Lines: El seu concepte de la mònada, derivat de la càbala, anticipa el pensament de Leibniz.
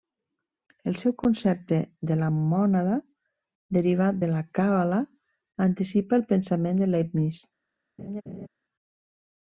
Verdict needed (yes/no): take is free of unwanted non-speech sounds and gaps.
no